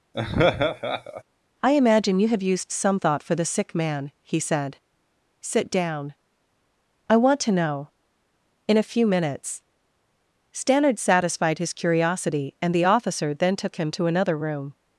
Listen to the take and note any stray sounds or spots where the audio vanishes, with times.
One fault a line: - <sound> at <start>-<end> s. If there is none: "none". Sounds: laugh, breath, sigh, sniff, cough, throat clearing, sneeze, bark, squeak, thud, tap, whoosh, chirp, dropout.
- laugh at 0.1-1.2 s